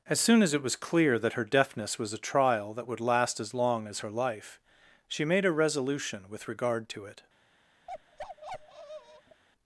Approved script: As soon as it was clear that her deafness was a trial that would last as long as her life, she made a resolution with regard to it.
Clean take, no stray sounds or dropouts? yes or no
no